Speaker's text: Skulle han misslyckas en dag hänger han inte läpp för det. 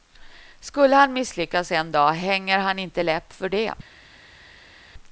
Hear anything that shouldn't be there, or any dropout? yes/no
no